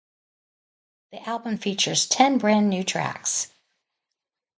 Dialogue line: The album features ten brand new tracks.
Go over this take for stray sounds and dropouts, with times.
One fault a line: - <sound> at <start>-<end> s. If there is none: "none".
none